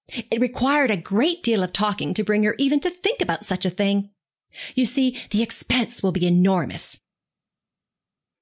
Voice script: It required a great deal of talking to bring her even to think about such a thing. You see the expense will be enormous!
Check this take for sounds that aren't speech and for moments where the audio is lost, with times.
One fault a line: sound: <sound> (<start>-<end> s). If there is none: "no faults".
no faults